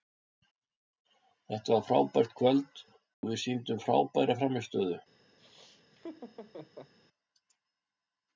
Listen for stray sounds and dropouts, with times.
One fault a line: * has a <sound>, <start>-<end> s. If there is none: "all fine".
* has a dropout, 3.1-3.2 s
* has a laugh, 5.4-6.9 s